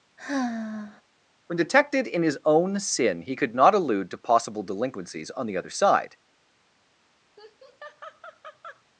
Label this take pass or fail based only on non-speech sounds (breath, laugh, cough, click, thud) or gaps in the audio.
fail